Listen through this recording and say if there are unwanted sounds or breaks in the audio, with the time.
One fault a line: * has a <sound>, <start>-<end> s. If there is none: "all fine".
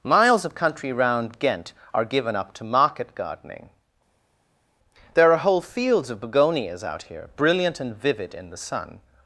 all fine